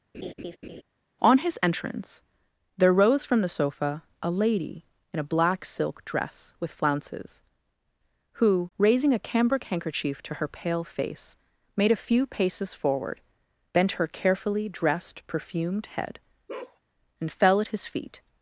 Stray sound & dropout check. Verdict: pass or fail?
fail